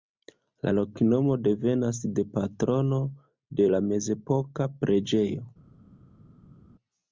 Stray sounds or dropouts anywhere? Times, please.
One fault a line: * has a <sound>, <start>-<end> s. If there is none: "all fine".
all fine